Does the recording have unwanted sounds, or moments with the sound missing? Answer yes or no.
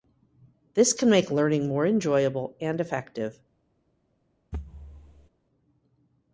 yes